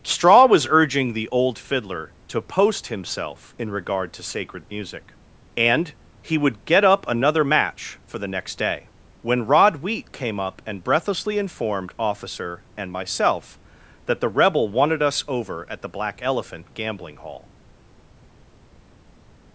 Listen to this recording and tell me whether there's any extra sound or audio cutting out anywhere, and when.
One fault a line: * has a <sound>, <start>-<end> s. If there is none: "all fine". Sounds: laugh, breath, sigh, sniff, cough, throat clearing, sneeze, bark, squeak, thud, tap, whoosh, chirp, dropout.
all fine